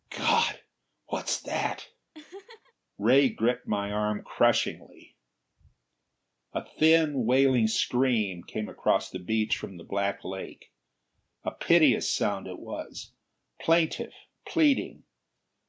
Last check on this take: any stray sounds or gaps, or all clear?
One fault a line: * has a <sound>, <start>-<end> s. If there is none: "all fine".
* has a laugh, 2.1-2.7 s